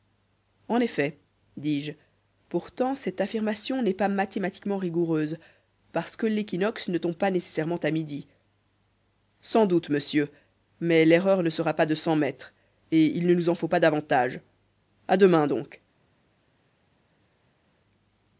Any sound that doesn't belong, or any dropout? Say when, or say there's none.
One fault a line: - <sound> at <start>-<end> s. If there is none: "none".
none